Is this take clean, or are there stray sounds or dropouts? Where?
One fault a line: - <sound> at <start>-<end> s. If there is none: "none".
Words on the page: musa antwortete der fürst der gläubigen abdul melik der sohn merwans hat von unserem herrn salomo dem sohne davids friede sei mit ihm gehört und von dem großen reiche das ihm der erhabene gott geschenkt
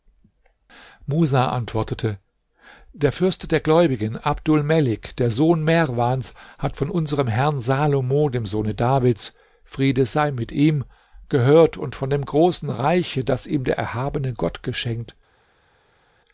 none